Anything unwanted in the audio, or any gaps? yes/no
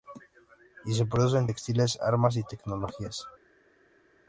no